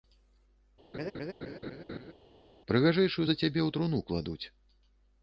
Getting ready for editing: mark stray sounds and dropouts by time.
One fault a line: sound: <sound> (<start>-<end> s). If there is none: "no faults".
sound: laugh (0.9-2.1 s)